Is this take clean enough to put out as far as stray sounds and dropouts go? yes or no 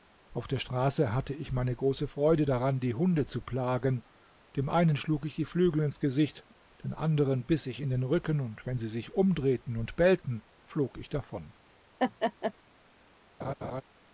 no